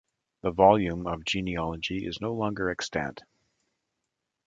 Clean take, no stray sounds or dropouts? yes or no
yes